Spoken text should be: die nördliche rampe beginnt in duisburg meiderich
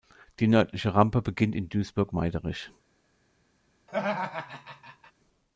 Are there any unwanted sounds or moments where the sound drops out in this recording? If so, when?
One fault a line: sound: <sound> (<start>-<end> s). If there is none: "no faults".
sound: laugh (3.9-5.1 s)